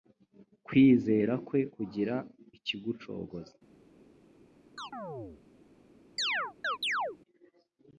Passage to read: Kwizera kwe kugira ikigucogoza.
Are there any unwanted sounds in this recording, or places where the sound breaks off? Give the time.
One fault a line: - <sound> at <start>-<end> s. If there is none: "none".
- chirp at 4.8-5.4 s
- chirp at 6.2-7.2 s